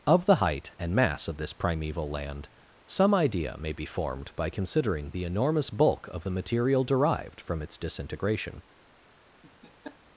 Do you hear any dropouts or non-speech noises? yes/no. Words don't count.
yes